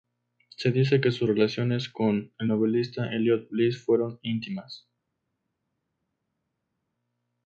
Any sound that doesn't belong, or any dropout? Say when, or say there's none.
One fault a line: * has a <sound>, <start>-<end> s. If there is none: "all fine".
all fine